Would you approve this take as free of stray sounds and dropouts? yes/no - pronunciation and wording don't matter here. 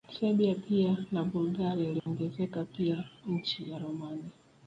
no